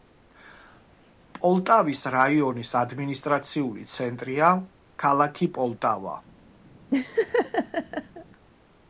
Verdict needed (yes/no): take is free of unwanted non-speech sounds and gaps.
no